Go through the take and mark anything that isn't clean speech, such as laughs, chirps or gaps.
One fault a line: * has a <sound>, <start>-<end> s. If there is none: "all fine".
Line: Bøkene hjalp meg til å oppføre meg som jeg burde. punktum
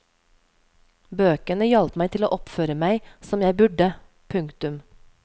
all fine